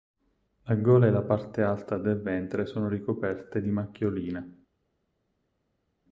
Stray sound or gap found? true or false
false